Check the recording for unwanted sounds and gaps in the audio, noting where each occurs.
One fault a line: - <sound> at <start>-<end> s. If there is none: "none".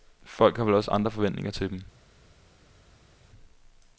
none